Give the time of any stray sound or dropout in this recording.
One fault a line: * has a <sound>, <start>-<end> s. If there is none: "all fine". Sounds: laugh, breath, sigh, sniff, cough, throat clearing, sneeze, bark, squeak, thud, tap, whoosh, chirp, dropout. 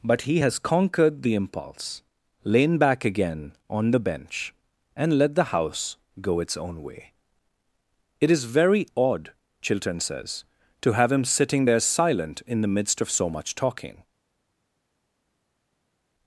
all fine